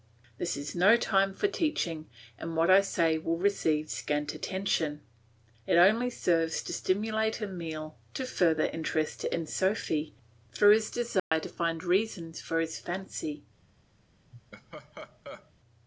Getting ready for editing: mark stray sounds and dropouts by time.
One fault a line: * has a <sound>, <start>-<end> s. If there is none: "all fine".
* has a dropout, 11.2-11.3 s
* has a laugh, 14.3-15.5 s